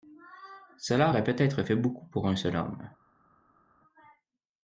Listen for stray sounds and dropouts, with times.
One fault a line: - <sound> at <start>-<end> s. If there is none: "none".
none